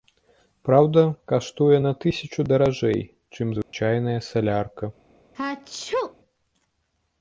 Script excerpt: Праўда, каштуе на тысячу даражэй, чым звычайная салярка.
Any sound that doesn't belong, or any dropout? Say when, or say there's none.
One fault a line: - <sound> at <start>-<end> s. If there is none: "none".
- dropout at 3.6-3.7 s
- sneeze at 5.3-6.1 s